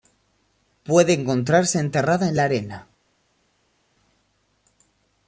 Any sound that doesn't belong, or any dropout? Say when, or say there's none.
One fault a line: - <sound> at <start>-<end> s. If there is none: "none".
none